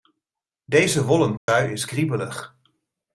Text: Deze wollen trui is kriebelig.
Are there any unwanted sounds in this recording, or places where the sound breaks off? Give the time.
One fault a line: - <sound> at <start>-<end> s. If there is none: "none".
- dropout at 1.4-1.5 s